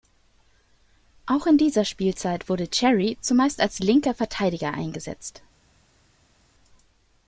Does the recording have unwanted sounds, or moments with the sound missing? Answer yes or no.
no